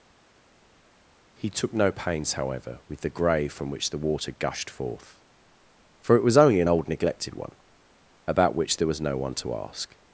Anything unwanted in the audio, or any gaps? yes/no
no